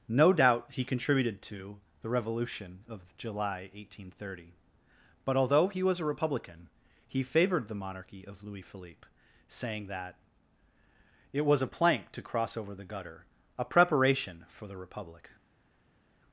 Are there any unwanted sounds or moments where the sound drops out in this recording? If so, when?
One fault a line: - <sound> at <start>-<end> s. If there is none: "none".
none